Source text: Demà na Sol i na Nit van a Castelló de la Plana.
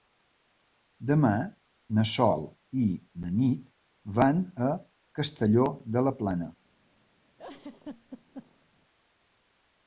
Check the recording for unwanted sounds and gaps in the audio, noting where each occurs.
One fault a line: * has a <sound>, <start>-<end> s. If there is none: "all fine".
* has a laugh, 7.4-8.7 s